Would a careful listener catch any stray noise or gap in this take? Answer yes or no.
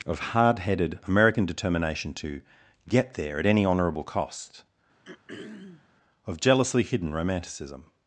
yes